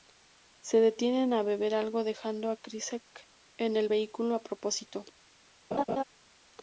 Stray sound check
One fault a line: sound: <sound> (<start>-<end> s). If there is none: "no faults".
sound: laugh (5.7-6.0 s)